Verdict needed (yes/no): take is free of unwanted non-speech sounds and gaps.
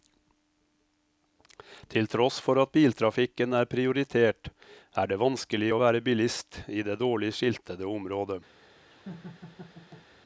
no